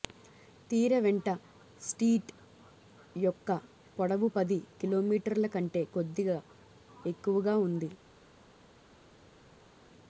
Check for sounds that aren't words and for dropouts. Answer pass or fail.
pass